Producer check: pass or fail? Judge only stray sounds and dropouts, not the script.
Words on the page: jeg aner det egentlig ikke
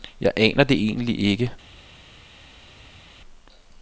pass